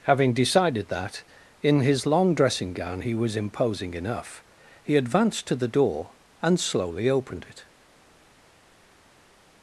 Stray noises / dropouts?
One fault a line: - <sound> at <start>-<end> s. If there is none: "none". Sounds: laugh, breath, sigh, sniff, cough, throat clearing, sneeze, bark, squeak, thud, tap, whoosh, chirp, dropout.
none